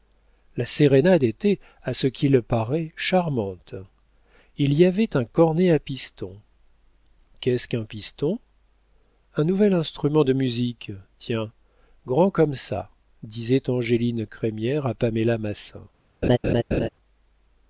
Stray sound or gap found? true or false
true